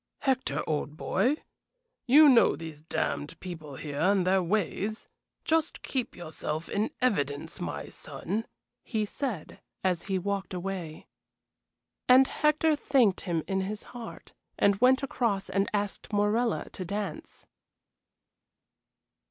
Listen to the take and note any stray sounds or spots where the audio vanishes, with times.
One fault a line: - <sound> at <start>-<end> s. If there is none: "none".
none